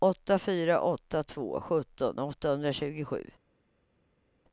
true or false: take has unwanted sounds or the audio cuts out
false